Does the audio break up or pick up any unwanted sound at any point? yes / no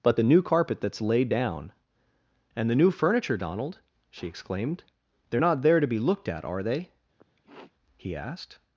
yes